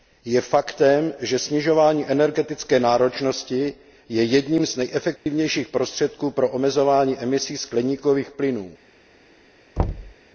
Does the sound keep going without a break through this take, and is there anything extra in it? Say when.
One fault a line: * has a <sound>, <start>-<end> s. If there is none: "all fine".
* has a dropout, 5.2-5.3 s
* has a thud, 9.8-10.1 s